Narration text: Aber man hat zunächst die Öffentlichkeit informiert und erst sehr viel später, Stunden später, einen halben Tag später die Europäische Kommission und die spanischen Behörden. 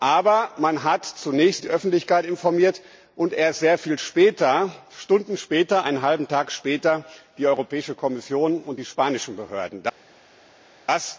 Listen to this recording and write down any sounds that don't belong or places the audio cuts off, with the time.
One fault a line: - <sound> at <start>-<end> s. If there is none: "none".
none